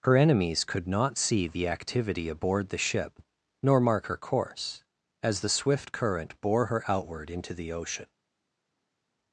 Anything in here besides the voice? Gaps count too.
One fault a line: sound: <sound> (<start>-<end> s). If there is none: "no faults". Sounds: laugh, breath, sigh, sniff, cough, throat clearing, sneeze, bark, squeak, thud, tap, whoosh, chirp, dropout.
no faults